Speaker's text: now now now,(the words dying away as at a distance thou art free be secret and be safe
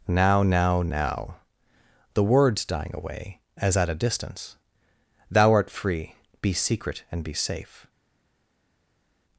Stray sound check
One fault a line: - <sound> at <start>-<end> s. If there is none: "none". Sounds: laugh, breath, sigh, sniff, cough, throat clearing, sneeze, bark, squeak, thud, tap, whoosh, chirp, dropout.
none